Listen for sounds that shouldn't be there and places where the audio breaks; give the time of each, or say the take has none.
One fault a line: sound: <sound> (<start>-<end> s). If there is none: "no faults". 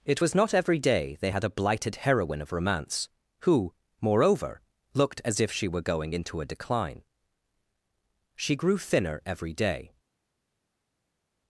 no faults